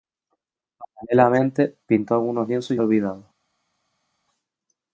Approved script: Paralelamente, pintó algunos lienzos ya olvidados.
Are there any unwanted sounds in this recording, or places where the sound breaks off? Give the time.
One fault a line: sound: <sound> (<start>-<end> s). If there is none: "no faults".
no faults